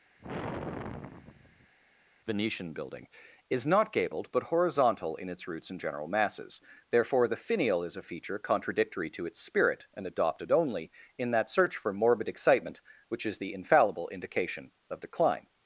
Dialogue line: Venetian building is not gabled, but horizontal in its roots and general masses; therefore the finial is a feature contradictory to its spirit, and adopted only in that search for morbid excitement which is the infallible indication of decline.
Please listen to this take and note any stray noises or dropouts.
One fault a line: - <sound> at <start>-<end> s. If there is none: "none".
- sigh at 0.2-1.7 s